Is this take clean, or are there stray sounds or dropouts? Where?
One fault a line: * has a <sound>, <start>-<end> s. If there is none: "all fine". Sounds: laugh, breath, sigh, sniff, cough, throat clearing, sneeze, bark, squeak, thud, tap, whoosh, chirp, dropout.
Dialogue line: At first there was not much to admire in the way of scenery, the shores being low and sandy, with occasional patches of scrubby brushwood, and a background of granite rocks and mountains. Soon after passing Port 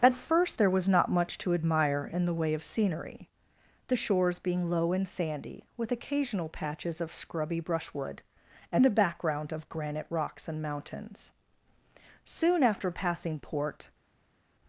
all fine